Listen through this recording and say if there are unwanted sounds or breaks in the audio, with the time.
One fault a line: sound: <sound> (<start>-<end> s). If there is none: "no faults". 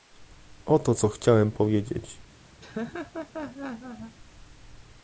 sound: laugh (2.6-4.2 s)